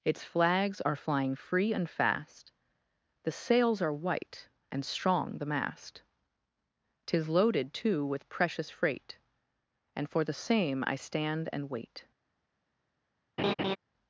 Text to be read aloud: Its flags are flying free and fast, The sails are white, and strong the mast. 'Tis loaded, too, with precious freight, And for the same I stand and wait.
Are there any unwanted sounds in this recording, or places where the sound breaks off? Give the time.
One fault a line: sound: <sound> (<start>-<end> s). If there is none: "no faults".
sound: laugh (13.4-13.8 s)